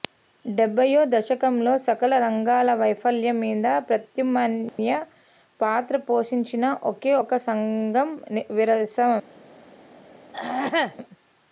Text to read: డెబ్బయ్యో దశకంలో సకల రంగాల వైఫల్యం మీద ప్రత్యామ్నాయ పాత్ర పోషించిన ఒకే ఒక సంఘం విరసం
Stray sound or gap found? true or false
true